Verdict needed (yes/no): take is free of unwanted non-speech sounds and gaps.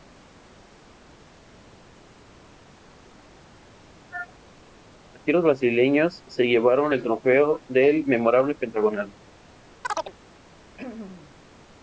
no